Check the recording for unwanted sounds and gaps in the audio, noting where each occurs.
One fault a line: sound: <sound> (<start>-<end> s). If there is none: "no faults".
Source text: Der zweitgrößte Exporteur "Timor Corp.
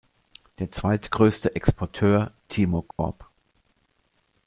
sound: dropout (2.9-3.0 s)